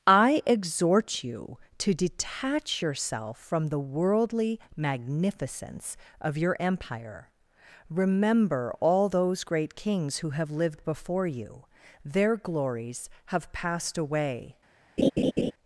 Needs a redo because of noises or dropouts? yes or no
yes